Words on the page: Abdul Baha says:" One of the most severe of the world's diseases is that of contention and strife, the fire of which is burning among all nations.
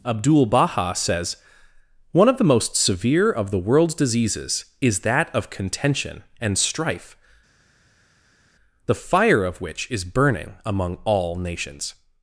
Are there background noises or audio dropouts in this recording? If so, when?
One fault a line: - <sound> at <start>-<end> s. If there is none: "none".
none